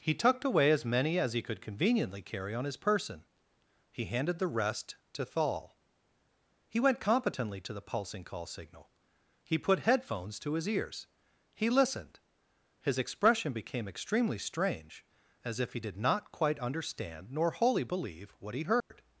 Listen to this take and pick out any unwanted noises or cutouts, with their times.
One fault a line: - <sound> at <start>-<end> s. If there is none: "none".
- dropout at 18.8-18.9 s